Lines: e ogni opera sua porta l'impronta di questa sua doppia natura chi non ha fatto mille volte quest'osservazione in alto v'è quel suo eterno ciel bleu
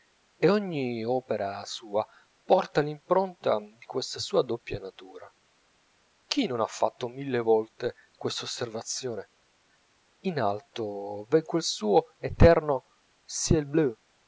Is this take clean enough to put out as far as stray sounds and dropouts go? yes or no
yes